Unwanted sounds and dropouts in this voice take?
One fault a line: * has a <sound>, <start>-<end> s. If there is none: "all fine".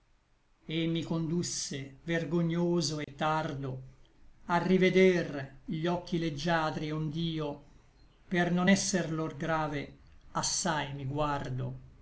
* has a dropout, 3.0-3.1 s